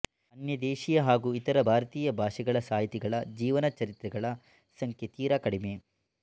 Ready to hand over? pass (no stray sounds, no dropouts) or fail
pass